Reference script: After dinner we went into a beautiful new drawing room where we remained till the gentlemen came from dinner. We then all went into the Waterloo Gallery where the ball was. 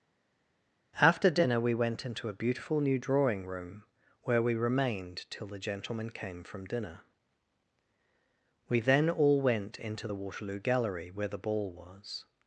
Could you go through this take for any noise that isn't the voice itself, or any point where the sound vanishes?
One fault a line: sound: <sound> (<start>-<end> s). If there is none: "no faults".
no faults